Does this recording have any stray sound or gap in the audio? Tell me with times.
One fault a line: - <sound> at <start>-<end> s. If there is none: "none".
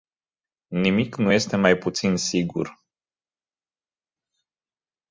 none